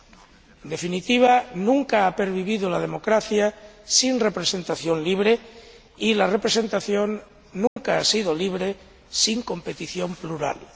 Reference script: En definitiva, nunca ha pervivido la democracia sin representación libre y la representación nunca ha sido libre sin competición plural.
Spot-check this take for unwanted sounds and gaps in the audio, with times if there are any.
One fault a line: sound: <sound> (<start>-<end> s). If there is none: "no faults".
sound: dropout (7.7-7.8 s)